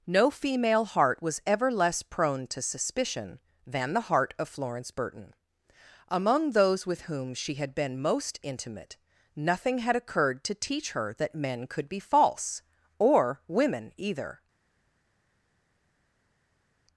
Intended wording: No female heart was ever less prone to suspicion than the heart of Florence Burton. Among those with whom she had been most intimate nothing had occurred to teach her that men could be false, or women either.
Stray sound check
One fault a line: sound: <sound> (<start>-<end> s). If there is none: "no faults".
no faults